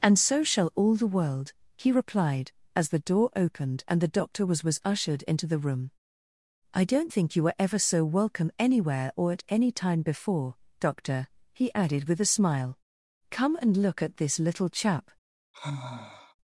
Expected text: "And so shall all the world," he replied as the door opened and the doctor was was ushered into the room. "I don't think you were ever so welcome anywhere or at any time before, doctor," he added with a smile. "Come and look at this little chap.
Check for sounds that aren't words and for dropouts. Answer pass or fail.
fail